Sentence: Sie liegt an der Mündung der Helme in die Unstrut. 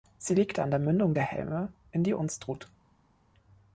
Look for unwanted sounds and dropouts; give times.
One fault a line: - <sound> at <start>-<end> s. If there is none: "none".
none